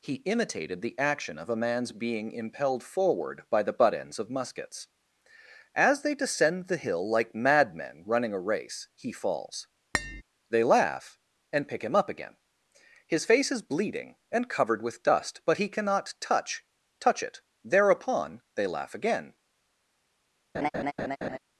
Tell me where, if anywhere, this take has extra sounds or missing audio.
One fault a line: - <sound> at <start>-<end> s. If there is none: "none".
- tap at 9.9-10.2 s
- laugh at 20.5-21.4 s